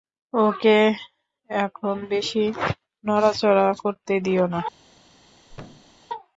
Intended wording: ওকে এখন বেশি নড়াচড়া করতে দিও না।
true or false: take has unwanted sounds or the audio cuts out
true